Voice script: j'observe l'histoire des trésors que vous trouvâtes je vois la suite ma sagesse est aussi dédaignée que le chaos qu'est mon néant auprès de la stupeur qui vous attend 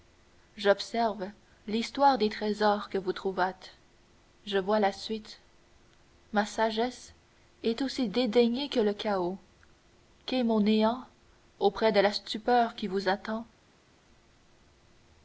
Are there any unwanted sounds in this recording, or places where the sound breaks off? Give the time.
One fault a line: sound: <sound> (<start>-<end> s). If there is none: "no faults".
no faults